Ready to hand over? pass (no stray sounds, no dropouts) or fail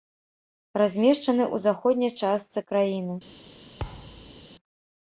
fail